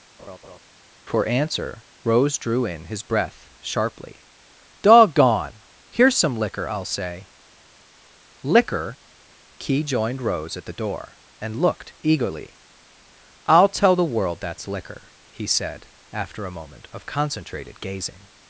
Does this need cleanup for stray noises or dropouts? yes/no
yes